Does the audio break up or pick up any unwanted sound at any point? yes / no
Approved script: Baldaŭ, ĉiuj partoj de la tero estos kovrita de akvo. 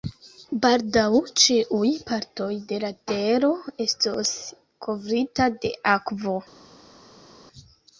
no